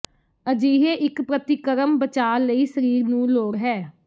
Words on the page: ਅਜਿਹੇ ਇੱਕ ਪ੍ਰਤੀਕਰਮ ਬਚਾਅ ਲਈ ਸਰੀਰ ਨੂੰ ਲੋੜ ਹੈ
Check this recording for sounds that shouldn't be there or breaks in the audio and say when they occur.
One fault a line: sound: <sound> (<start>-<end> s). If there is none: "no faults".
no faults